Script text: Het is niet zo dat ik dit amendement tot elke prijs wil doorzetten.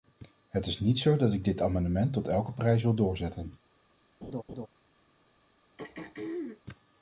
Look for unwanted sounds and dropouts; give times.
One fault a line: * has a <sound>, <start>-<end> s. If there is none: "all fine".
* has a laugh, 4.2-4.7 s
* has a throat clearing, 5.8-6.6 s